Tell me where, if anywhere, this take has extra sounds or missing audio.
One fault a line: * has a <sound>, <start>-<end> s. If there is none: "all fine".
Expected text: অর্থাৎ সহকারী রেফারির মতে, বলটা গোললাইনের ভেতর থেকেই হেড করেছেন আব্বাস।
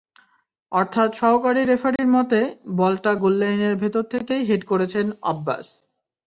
* has a dropout, 2.0-2.0 s